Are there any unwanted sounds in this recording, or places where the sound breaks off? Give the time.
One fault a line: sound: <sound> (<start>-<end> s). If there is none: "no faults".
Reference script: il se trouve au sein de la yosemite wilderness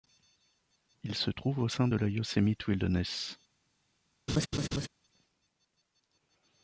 sound: laugh (4.3-4.9 s)